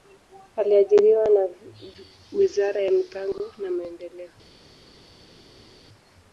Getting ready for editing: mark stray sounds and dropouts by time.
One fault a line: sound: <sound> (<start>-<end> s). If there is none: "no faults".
no faults